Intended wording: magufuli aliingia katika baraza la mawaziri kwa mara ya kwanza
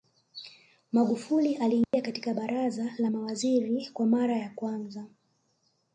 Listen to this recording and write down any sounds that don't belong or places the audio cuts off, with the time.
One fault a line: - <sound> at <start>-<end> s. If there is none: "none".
- dropout at 1.8-1.9 s